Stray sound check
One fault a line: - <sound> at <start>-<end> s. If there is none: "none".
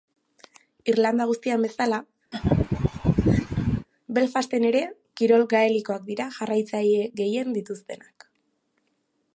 - laugh at 2.3-3.9 s